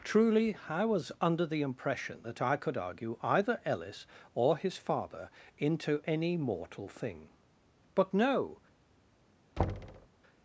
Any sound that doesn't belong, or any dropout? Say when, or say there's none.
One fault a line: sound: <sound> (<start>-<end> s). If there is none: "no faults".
sound: thud (9.6-10.1 s)